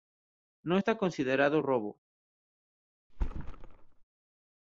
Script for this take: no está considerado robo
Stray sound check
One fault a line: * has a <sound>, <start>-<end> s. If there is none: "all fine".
* has a thud, 3.1-4.0 s